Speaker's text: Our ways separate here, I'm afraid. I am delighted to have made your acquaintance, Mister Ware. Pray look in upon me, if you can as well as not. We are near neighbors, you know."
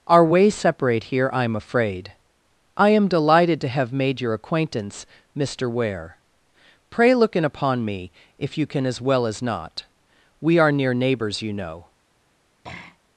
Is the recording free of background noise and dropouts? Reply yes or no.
no